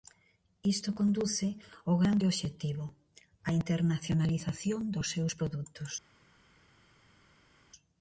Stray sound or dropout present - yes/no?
no